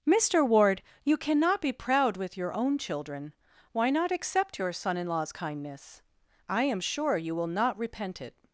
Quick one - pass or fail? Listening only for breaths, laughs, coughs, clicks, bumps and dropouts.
pass